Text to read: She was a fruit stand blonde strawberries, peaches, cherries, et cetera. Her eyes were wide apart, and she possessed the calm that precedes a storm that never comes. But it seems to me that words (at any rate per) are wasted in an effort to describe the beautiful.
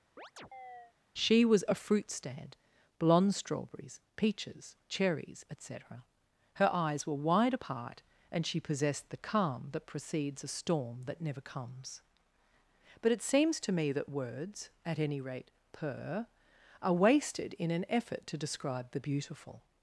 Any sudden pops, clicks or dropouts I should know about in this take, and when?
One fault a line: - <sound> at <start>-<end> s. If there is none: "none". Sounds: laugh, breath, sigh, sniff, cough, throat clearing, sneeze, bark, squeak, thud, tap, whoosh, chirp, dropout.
- chirp at 0.2-0.9 s